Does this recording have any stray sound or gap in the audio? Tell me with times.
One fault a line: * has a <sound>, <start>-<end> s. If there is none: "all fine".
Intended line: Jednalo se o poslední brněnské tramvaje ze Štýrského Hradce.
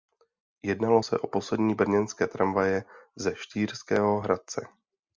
all fine